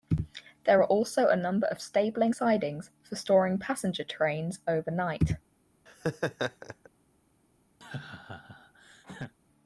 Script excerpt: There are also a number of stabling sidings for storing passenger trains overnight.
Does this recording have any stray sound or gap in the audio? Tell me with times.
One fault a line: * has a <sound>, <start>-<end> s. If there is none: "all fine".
* has a laugh, 5.9-6.9 s
* has a laugh, 7.8-9.3 s